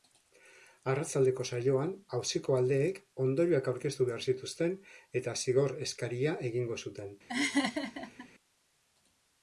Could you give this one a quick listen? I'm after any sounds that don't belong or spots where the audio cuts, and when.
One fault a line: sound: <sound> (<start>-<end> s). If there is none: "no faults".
sound: laugh (7.3-8.3 s)